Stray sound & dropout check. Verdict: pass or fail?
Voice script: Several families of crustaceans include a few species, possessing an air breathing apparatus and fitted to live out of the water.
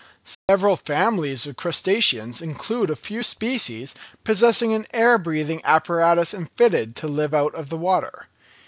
fail